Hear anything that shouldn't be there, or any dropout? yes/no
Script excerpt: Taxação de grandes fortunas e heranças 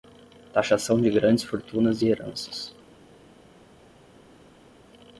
no